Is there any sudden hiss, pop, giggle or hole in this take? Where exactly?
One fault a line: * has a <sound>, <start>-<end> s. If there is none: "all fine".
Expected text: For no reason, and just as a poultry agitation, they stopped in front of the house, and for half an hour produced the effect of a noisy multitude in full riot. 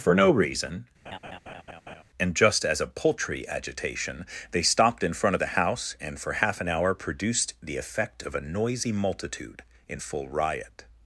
* has a laugh, 1.1-2.0 s